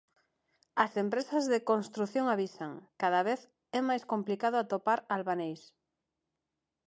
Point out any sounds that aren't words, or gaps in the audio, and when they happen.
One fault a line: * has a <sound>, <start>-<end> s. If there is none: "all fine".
all fine